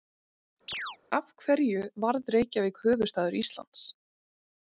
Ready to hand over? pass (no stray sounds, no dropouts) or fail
fail